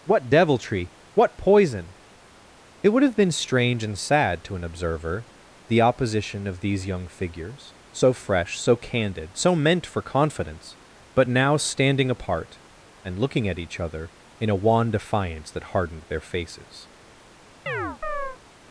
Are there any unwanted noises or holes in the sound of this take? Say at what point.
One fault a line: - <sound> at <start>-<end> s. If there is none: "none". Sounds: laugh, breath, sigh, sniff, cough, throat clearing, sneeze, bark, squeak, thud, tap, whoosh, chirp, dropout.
- chirp at 17.7-18.4 s